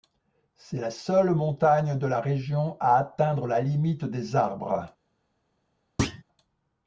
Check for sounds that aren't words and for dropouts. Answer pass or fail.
fail